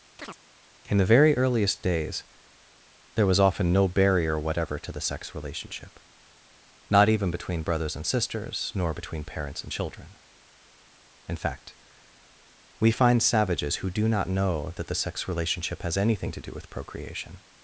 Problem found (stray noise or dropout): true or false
true